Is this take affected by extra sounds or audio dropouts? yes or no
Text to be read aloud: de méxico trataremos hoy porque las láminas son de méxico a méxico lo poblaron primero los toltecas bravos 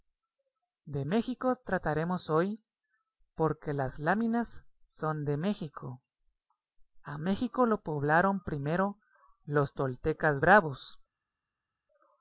no